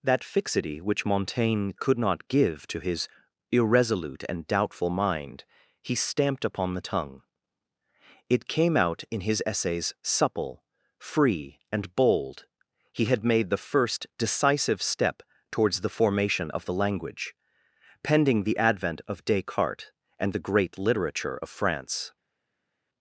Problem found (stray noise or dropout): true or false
false